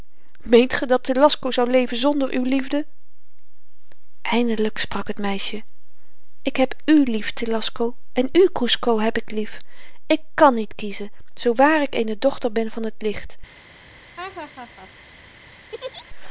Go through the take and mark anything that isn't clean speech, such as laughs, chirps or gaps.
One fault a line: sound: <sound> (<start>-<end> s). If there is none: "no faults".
sound: laugh (14.2-14.9 s)
sound: laugh (15.7-16.1 s)